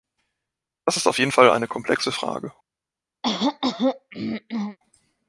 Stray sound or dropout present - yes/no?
yes